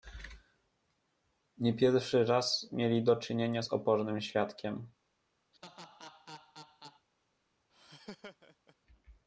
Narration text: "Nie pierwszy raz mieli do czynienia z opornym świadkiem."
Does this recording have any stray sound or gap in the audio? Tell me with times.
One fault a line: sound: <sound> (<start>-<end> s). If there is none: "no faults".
sound: laugh (5.5-7.1 s)
sound: laugh (7.7-8.8 s)